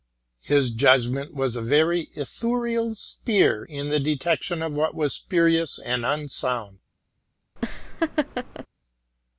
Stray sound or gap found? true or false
true